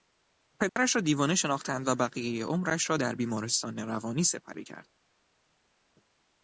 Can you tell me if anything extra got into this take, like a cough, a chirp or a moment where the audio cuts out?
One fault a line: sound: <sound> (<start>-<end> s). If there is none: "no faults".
sound: dropout (0.7-0.8 s)